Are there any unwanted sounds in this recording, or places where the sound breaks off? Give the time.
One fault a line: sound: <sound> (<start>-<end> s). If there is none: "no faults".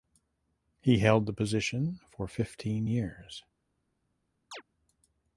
sound: chirp (4.5-4.6 s)